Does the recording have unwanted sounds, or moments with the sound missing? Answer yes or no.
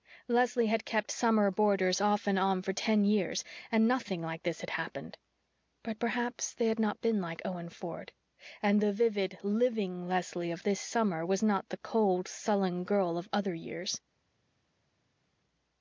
no